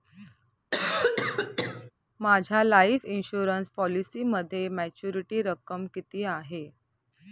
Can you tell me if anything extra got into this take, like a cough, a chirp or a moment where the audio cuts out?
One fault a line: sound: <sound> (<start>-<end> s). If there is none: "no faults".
sound: cough (0.7-1.9 s)